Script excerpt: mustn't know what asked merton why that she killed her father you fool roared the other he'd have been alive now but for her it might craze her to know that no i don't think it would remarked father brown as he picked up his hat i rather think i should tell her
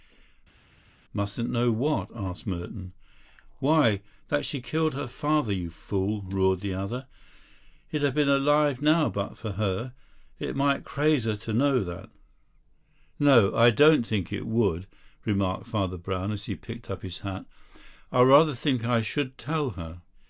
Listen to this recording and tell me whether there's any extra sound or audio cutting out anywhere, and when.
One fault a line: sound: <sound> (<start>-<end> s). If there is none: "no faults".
no faults